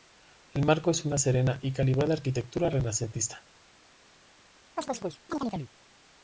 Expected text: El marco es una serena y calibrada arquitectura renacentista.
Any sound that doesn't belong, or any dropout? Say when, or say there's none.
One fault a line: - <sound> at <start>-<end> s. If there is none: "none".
- chirp at 4.8-5.7 s